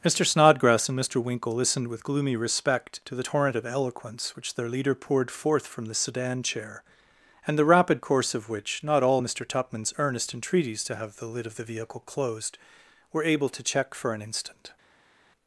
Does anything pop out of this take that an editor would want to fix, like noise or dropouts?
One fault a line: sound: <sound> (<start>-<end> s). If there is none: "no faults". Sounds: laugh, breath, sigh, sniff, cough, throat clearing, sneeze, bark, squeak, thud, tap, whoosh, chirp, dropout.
no faults